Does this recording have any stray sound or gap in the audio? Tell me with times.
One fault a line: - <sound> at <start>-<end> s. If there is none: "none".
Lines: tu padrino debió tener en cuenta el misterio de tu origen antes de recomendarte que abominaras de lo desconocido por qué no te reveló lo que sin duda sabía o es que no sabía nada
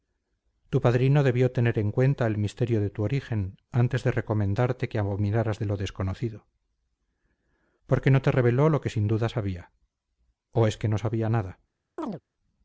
- chirp at 12.0-12.2 s